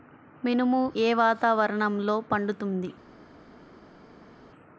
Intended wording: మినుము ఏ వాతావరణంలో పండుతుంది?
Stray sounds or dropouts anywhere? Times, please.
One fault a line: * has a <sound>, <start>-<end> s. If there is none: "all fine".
all fine